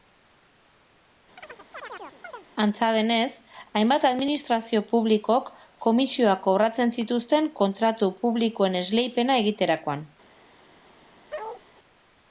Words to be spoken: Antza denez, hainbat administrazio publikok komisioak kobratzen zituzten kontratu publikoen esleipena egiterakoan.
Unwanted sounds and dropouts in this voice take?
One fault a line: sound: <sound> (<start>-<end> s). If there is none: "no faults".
sound: chirp (1.4-2.5 s)
sound: bark (11.3-11.6 s)